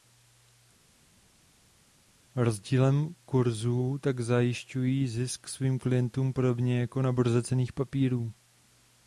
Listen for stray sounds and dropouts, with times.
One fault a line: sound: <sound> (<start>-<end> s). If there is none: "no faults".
no faults